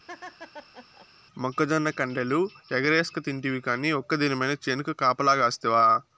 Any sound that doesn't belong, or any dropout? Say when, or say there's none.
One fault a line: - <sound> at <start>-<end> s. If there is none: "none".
- laugh at 0.1-1.1 s